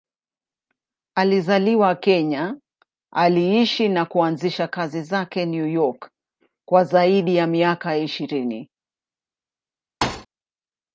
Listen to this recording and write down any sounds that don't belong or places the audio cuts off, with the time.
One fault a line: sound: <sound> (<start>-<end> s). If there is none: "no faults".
sound: thud (10.0-10.3 s)